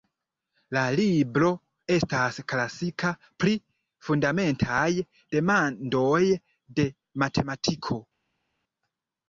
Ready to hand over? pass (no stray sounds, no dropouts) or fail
pass